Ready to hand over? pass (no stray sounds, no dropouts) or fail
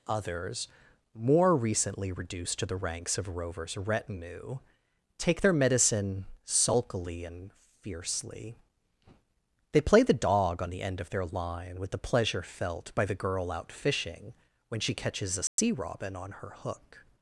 fail